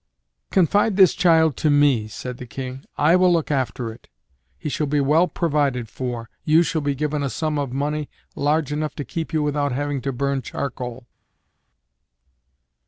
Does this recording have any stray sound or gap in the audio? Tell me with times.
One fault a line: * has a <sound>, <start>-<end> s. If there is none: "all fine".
all fine